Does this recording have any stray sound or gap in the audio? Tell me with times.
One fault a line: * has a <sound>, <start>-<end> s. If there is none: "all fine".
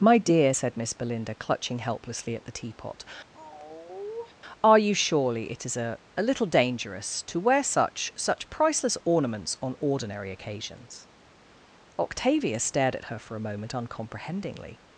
* has a sigh, 3.3-4.3 s